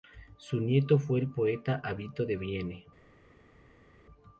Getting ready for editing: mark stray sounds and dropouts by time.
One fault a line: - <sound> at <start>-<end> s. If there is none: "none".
none